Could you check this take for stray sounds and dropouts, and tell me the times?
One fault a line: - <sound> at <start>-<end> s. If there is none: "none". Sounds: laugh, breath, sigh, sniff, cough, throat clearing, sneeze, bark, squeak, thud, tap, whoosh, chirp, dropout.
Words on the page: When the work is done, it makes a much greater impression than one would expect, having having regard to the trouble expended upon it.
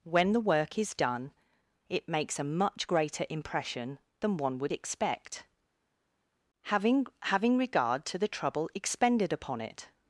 none